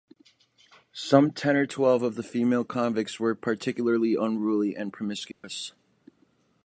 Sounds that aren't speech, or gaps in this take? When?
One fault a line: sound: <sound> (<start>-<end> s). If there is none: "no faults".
sound: dropout (5.3-5.4 s)